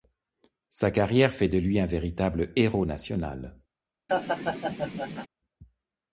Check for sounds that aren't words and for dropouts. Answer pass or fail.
fail